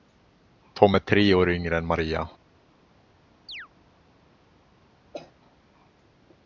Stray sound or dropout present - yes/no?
yes